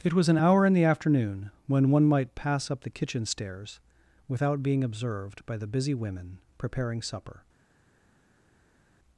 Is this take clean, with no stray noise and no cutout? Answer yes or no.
yes